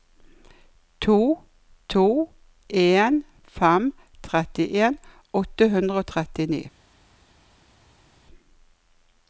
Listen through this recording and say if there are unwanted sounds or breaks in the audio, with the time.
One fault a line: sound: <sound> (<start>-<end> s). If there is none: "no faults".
no faults